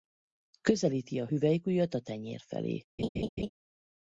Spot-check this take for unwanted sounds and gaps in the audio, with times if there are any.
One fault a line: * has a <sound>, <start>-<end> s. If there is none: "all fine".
* has a laugh, 3.0-3.5 s